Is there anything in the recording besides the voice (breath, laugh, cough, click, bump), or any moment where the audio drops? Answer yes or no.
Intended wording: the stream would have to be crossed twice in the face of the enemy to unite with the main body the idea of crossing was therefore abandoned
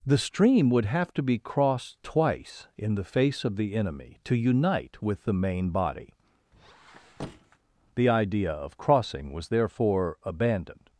yes